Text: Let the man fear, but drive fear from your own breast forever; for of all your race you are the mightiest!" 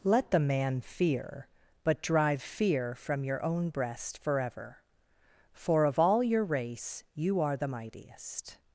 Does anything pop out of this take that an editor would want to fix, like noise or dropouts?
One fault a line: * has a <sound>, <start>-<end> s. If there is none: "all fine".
all fine